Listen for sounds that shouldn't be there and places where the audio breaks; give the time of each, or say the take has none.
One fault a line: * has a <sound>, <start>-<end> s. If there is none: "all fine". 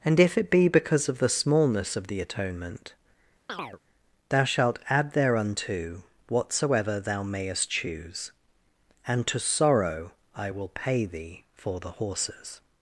* has a chirp, 3.5-3.8 s